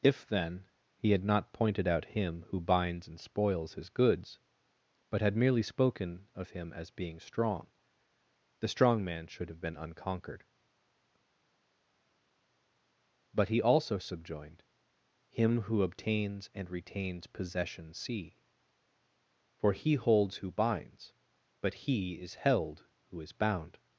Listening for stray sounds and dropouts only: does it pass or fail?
pass